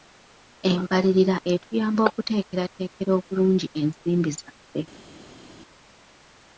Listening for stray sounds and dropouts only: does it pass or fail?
pass